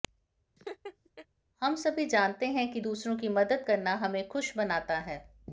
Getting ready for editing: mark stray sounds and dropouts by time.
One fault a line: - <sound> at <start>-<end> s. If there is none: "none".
- laugh at 0.6-1.3 s